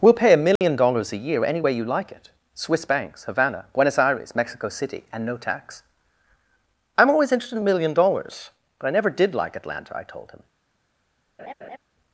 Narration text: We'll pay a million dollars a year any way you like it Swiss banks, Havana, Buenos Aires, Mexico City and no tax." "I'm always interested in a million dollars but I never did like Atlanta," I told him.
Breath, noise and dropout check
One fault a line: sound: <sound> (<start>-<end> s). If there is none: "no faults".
sound: dropout (0.6-0.6 s)
sound: laugh (11.4-11.8 s)